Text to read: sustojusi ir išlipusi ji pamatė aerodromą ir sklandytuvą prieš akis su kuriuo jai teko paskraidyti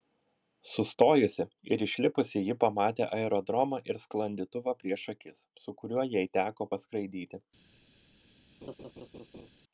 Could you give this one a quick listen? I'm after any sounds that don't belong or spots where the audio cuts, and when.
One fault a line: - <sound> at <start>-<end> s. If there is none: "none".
- laugh at 8.6-9.5 s